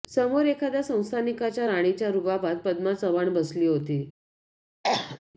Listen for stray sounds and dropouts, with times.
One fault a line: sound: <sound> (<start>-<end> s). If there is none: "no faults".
sound: cough (4.8-5.2 s)